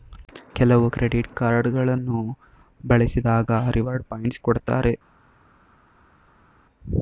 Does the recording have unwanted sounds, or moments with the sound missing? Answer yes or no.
no